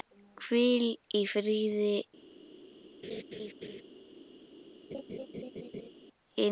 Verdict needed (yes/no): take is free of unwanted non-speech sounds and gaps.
no